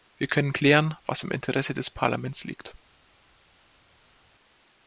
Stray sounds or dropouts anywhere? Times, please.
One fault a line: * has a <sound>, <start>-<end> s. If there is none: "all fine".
all fine